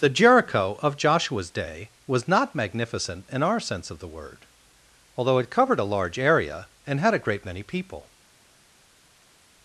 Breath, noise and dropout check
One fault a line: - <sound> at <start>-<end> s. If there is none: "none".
none